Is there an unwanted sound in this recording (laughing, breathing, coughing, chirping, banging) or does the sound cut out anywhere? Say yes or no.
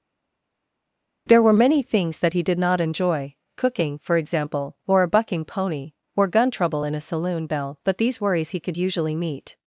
no